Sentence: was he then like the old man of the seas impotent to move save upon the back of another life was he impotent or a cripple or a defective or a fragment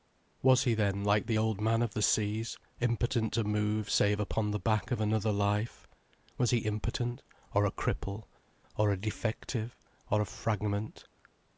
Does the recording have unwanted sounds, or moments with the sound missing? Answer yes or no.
no